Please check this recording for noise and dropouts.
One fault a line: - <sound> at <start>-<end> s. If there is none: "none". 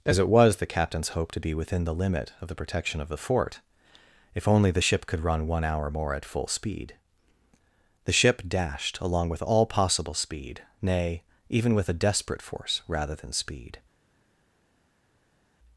none